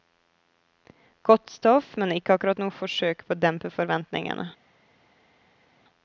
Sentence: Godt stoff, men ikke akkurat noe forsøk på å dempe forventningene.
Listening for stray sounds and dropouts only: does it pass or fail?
pass